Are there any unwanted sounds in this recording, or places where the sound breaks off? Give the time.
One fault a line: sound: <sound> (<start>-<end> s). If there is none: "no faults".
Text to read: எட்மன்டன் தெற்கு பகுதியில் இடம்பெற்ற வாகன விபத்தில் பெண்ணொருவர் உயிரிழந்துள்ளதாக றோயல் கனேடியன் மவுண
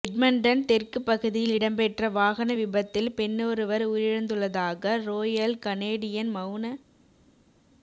no faults